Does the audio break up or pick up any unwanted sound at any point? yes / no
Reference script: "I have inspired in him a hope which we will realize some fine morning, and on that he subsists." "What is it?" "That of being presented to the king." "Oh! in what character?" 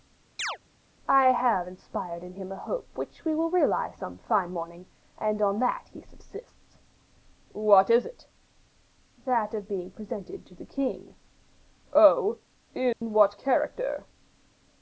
yes